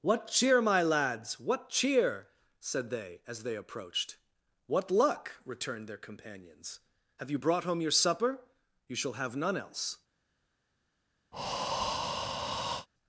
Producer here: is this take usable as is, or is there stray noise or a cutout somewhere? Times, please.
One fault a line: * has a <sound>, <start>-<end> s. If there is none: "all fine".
* has a breath, 11.3-12.9 s